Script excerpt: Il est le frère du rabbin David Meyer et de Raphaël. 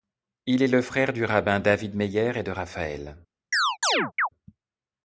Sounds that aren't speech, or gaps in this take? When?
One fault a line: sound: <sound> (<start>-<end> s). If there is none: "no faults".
sound: chirp (3.5-4.3 s)